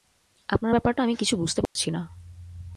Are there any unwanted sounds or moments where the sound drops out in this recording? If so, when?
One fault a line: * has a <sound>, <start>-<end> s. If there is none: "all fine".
* has a dropout, 1.7-1.8 s